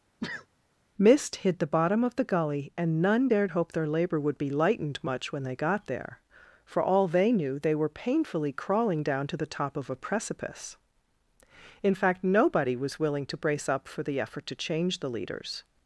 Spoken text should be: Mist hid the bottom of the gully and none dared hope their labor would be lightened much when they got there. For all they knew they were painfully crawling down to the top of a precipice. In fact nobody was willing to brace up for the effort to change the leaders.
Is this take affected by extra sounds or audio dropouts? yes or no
yes